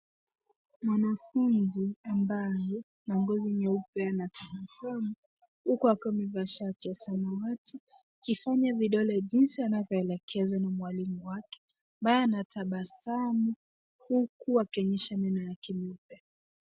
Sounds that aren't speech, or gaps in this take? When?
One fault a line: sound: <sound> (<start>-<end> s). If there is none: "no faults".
no faults